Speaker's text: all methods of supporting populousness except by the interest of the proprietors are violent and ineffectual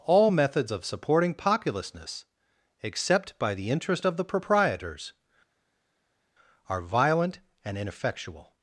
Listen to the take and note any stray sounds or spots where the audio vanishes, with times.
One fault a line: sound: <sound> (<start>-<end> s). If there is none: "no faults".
no faults